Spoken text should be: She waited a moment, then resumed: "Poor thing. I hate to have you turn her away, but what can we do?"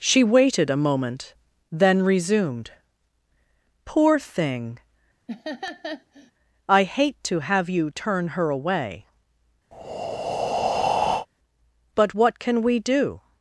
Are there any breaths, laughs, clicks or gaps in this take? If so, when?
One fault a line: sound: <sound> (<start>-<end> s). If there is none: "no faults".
sound: laugh (5.3-6.3 s)
sound: breath (9.7-11.3 s)